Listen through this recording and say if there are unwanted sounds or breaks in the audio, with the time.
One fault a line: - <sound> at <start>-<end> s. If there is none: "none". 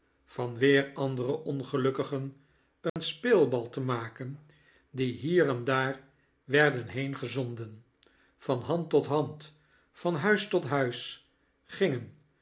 - dropout at 2.9-3.0 s